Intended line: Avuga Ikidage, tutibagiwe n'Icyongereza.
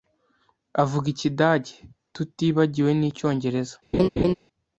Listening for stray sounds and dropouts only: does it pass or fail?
fail